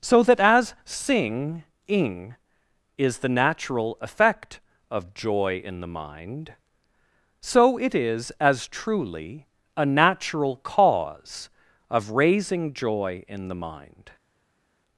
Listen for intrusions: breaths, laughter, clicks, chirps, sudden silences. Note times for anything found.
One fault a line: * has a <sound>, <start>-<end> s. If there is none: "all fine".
all fine